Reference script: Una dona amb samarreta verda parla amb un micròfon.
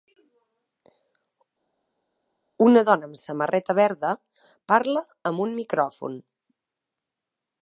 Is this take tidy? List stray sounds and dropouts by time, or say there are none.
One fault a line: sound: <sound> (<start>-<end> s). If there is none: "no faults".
no faults